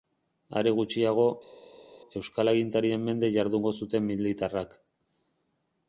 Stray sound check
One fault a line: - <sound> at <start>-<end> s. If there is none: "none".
none